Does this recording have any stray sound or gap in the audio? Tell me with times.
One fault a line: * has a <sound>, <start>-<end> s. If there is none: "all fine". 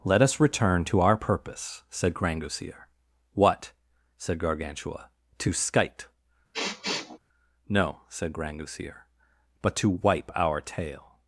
* has a sniff, 6.5-7.2 s